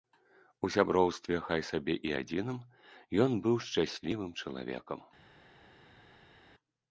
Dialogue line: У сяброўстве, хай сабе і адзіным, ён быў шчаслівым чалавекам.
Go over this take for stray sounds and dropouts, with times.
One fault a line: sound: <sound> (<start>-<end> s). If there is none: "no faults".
no faults